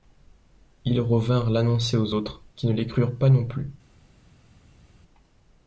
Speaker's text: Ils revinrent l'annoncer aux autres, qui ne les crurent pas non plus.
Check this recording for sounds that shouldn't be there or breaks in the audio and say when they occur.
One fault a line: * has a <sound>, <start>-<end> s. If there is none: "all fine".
all fine